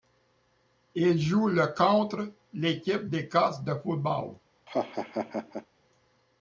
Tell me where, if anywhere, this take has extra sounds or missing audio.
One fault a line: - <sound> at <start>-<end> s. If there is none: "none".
- laugh at 4.7-5.7 s